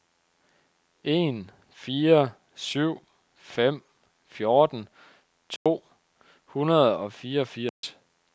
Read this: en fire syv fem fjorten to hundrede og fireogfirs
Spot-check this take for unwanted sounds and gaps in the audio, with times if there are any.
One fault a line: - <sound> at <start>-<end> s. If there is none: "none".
- dropout at 5.6-5.7 s
- dropout at 7.7-7.8 s